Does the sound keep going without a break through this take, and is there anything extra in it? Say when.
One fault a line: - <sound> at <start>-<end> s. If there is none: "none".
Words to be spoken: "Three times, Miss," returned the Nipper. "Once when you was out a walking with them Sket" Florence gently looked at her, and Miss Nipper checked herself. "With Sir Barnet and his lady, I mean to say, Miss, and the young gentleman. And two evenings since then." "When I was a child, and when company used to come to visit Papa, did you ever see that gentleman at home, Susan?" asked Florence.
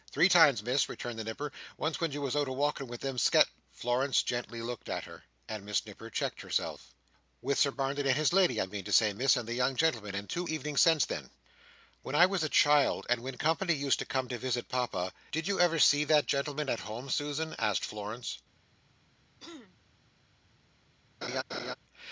- throat clearing at 19.4-19.8 s
- laugh at 21.2-21.8 s